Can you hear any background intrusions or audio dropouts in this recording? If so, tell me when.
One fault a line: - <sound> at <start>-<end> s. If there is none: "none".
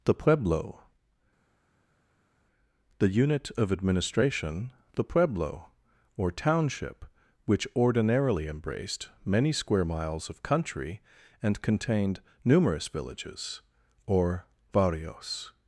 none